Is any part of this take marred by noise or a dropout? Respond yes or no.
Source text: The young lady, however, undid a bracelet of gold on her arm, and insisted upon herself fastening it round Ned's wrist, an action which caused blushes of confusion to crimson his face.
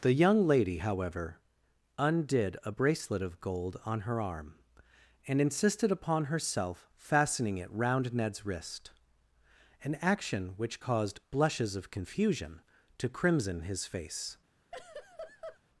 yes